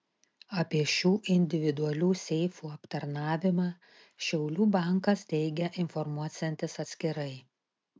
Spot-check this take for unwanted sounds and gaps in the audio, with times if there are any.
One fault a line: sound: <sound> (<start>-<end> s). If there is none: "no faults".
no faults